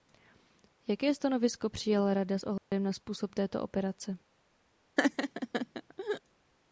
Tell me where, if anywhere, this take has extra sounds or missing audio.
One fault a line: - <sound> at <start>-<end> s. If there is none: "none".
- dropout at 2.6-2.7 s
- laugh at 5.0-6.2 s